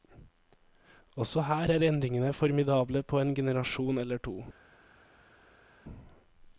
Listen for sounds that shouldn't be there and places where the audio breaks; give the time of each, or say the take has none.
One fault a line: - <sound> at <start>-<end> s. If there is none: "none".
none